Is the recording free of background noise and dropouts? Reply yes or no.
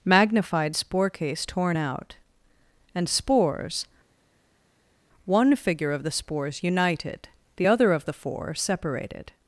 yes